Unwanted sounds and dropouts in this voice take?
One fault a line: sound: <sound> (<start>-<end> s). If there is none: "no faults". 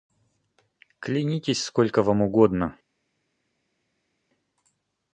no faults